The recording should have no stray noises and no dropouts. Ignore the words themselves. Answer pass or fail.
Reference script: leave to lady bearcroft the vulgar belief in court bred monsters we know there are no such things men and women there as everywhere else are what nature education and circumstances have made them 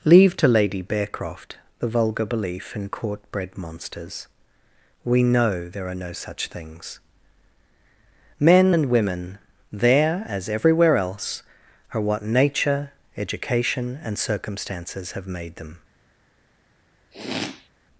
fail